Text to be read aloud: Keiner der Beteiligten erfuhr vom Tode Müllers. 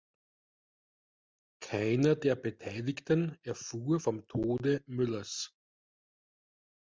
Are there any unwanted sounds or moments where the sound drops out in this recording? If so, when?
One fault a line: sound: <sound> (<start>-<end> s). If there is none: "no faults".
no faults